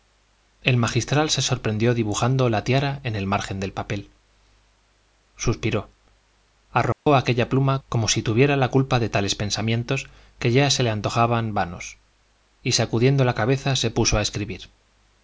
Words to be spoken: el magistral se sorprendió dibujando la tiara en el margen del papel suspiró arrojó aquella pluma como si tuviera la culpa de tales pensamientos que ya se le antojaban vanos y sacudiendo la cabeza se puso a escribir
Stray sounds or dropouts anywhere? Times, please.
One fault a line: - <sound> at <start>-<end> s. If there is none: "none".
- dropout at 6.9-7.1 s